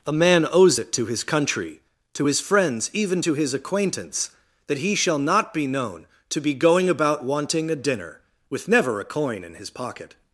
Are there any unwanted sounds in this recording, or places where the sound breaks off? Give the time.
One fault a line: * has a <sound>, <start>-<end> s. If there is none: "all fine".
all fine